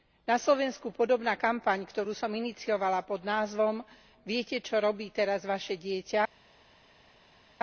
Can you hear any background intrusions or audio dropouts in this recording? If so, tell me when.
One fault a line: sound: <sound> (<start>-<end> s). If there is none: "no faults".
no faults